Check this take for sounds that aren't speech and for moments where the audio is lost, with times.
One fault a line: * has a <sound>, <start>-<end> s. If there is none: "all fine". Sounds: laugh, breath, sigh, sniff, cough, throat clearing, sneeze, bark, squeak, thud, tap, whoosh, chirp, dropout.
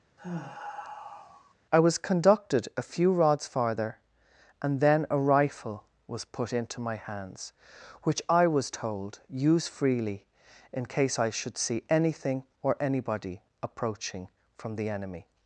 * has a sigh, 0.2-1.5 s